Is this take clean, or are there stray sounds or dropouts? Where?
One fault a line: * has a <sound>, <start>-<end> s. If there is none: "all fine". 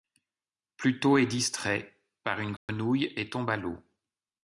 * has a dropout, 2.6-2.7 s